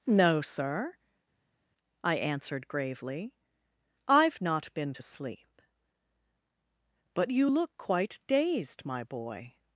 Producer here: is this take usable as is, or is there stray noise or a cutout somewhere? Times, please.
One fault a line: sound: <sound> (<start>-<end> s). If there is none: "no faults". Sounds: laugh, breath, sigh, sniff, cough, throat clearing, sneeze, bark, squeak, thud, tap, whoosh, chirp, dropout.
no faults